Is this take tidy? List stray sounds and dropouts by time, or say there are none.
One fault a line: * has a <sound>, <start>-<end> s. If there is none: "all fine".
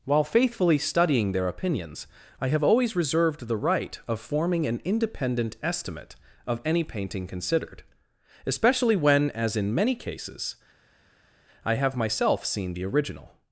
all fine